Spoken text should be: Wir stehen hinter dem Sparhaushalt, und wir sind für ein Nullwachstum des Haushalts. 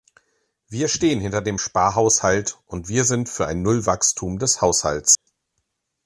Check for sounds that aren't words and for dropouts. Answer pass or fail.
fail